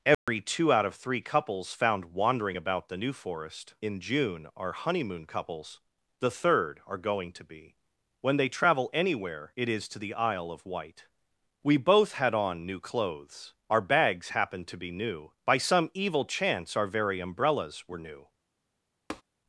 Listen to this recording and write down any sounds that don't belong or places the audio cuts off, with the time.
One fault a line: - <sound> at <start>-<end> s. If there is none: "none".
- dropout at 0.1-0.3 s
- tap at 19.1-19.2 s